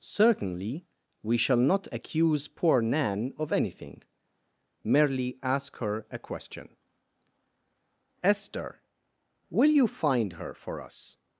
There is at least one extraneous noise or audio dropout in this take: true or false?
false